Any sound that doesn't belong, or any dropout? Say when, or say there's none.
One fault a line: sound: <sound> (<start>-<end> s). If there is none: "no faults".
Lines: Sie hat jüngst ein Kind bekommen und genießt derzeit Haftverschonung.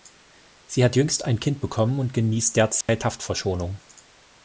sound: dropout (2.8-2.9 s)